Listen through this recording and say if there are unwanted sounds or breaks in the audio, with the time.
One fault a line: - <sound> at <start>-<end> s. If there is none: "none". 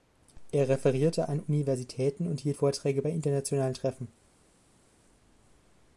none